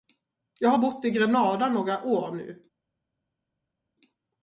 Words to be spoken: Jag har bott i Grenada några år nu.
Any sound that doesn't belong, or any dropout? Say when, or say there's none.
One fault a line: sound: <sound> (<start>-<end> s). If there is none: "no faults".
no faults